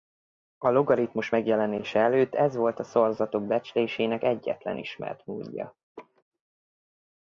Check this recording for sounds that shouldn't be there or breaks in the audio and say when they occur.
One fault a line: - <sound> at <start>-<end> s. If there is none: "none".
- laugh at 6.0-6.2 s